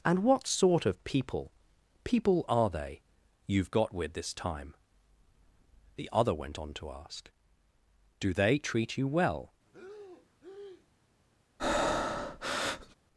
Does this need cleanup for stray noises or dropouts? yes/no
yes